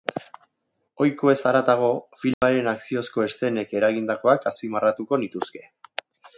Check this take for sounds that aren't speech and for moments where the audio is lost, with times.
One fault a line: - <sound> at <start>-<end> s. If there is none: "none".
- dropout at 2.3-2.4 s